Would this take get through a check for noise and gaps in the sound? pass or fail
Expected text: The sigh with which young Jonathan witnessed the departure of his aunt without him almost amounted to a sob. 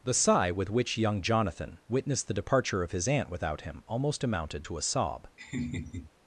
fail